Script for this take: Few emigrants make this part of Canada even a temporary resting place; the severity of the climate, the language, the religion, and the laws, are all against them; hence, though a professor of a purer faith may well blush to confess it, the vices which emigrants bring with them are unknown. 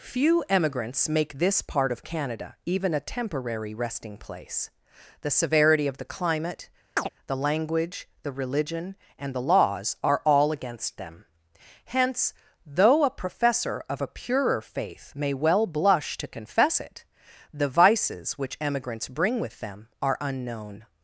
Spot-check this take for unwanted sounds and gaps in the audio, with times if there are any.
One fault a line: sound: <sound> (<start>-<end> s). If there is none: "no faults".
sound: chirp (7.0-7.1 s)